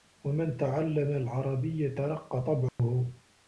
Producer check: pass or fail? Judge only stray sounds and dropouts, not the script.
fail